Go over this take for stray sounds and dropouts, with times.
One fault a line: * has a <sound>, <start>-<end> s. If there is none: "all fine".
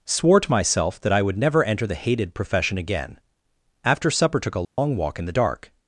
* has a dropout, 4.6-4.8 s